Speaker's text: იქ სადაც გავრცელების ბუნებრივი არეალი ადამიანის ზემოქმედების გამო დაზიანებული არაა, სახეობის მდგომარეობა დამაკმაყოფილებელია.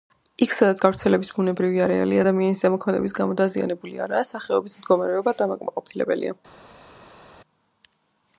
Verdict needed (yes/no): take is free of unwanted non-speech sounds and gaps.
yes